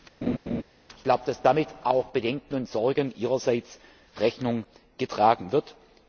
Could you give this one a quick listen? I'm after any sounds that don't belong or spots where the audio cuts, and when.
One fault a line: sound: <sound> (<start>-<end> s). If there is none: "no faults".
sound: laugh (0.2-0.6 s)